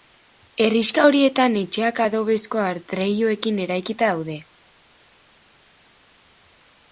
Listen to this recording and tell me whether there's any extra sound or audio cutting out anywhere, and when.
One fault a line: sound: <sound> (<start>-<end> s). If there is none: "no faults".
no faults